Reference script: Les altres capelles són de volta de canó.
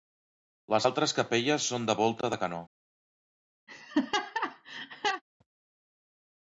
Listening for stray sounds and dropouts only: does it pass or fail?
fail